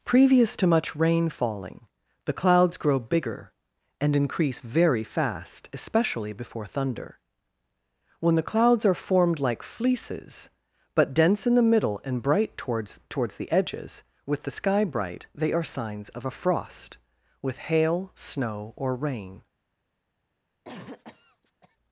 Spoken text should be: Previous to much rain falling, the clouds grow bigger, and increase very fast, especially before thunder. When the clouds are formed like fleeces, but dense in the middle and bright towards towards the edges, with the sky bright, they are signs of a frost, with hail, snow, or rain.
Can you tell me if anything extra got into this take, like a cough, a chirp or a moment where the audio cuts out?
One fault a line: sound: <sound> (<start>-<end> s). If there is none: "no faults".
sound: cough (20.6-21.8 s)